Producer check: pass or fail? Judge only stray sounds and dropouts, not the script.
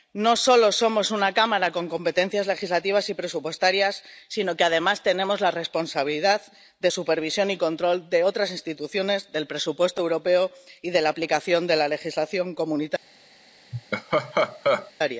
fail